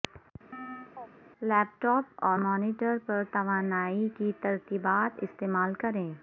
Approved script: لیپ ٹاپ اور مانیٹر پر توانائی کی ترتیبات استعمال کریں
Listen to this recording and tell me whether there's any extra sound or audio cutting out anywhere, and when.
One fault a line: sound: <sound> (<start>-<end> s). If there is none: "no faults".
sound: chirp (0.5-1.1 s)